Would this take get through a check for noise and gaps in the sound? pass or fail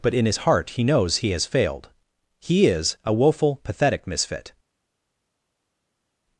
pass